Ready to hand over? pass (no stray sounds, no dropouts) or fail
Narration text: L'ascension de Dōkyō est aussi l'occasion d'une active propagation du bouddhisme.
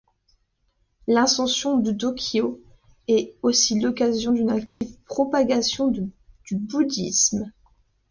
fail